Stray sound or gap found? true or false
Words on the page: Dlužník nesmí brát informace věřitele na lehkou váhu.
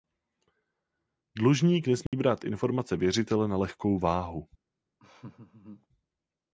true